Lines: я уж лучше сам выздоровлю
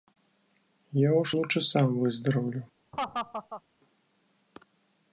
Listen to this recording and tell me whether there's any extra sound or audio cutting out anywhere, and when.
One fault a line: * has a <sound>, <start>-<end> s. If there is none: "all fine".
* has a laugh, 2.9-3.6 s